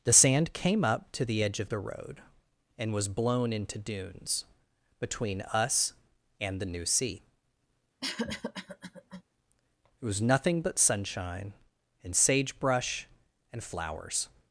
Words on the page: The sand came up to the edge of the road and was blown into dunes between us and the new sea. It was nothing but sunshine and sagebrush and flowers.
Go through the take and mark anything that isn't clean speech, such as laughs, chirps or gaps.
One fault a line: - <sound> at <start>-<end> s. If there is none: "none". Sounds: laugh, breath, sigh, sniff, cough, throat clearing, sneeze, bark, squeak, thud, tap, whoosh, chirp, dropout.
- cough at 8.0-9.2 s